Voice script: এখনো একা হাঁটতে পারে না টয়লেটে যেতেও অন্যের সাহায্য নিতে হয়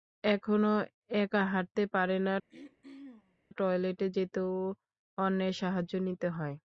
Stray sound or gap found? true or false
true